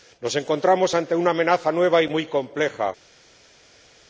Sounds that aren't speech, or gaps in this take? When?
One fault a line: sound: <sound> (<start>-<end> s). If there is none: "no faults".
no faults